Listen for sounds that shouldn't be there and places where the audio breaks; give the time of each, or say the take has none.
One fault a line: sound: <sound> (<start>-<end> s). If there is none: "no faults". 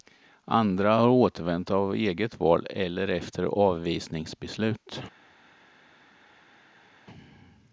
no faults